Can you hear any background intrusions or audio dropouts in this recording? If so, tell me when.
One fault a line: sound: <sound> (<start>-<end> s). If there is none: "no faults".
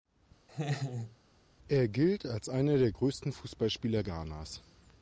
sound: laugh (0.5-1.2 s)